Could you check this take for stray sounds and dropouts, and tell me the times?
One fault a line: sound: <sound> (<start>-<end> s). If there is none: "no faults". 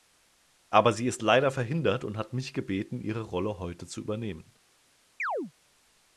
sound: chirp (5.2-5.5 s)